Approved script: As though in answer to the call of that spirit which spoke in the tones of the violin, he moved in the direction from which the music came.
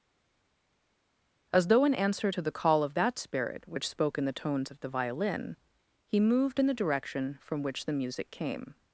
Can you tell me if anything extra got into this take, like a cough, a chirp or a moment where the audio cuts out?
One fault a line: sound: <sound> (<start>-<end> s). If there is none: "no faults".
no faults